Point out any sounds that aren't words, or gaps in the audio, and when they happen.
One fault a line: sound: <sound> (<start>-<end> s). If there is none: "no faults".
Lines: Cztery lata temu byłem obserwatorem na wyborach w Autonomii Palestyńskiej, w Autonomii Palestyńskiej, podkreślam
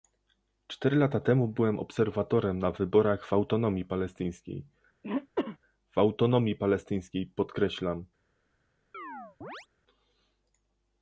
sound: throat clearing (5.0-5.6 s)
sound: chirp (8.9-9.7 s)